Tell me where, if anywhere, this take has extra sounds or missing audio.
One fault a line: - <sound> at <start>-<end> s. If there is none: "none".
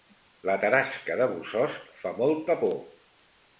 none